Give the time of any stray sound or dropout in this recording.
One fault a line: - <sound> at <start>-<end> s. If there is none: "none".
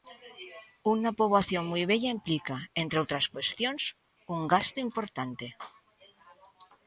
none